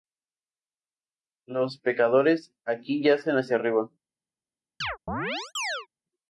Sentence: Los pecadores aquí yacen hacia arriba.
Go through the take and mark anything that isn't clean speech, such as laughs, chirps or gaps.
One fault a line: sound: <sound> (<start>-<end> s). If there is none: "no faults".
sound: chirp (4.8-5.9 s)